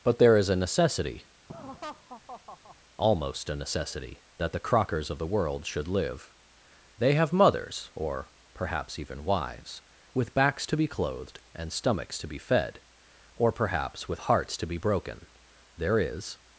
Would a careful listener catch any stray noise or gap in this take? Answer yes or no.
yes